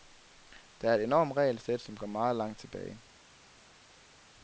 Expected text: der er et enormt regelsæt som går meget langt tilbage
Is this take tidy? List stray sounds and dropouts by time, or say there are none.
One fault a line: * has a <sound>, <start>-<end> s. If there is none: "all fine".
all fine